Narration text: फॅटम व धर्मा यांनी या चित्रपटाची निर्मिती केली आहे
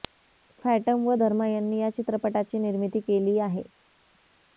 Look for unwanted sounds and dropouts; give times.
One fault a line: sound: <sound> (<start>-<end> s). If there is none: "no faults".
no faults